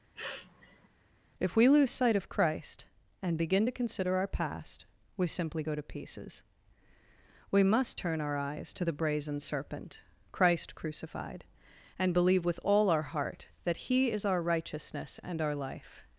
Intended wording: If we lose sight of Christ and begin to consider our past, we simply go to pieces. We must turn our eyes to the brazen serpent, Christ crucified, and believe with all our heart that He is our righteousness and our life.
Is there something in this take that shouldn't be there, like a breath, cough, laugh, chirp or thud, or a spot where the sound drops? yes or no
yes